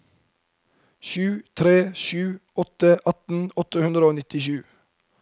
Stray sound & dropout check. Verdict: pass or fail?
pass